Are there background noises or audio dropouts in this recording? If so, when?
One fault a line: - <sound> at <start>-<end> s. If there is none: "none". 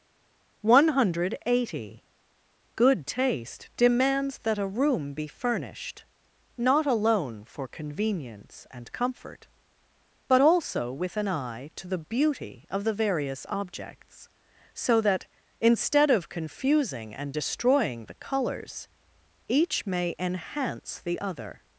none